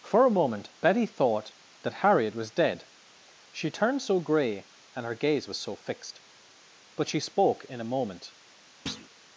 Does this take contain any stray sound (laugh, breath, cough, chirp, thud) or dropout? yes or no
yes